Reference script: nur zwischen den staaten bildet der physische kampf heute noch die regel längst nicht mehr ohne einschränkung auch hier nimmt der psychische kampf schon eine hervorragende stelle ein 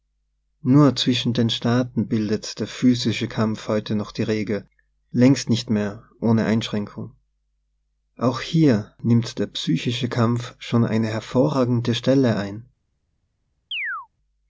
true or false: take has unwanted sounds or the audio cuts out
true